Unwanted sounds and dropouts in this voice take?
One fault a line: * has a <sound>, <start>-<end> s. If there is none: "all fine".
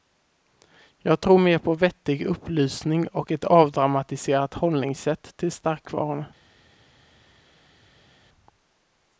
all fine